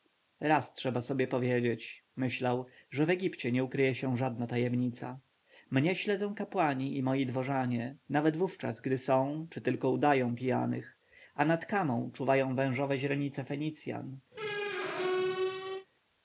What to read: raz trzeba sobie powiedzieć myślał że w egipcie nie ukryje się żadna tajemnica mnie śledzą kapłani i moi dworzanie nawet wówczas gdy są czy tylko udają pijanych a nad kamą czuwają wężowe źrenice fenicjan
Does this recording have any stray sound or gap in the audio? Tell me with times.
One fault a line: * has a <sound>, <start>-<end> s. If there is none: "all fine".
* has a squeak, 14.3-15.9 s